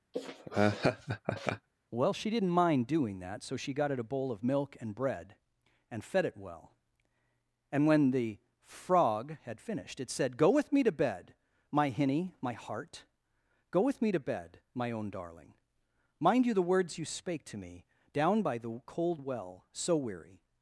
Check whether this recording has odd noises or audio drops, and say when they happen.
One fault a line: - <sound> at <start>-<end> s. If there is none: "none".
- laugh at 0.1-1.7 s